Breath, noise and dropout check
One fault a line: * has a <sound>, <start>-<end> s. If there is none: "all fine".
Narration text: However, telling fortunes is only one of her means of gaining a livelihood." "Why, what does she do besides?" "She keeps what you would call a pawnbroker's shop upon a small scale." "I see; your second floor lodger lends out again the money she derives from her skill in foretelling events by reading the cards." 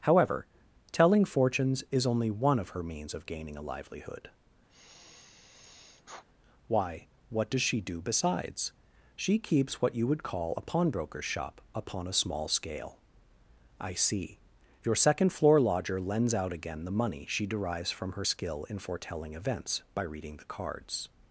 * has a sigh, 4.7-6.2 s